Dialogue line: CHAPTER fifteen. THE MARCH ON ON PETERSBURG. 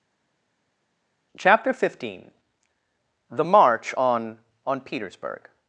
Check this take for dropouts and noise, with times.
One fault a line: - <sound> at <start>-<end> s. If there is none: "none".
none